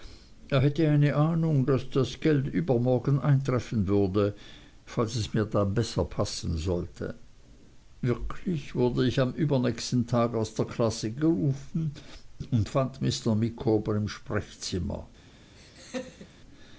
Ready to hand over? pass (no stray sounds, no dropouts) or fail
fail